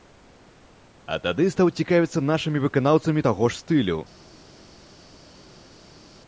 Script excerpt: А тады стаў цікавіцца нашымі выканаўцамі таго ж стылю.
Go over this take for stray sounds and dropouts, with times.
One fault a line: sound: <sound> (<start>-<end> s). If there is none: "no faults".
no faults